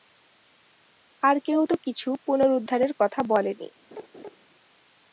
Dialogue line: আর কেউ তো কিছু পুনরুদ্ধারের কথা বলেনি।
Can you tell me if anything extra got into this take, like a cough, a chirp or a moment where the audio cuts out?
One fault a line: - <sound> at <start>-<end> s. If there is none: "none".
- laugh at 3.9-4.4 s